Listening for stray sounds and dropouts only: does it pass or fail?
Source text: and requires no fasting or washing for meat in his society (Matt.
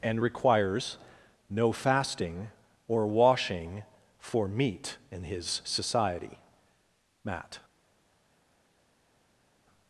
pass